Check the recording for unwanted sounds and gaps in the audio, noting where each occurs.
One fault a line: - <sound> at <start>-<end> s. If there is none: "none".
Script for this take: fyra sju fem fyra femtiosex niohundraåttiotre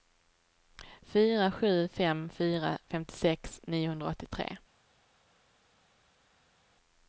none